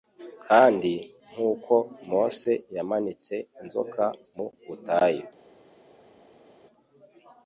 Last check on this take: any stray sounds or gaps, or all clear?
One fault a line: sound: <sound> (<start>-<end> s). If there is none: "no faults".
no faults